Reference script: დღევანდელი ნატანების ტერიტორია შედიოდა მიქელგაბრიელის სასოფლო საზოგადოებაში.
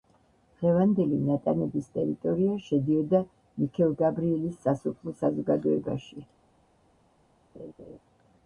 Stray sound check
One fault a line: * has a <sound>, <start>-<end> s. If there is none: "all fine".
* has a laugh, 7.5-8.0 s